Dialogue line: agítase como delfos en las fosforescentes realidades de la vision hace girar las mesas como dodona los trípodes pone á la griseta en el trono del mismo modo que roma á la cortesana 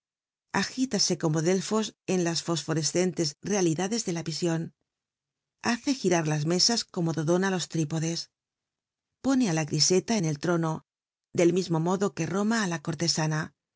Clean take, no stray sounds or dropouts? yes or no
yes